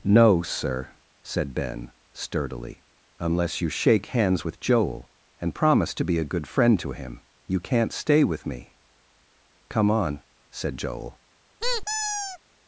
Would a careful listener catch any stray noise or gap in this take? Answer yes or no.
yes